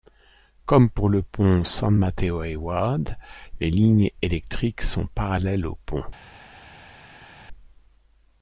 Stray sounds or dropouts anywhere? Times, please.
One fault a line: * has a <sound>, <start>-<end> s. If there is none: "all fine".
all fine